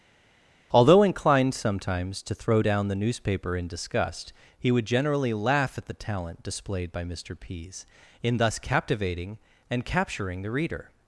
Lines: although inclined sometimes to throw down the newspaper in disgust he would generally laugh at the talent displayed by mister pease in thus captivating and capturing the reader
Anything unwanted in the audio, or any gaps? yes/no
no